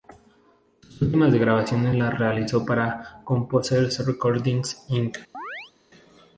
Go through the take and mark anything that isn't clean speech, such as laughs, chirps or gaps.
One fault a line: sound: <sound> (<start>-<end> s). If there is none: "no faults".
sound: chirp (5.3-5.7 s)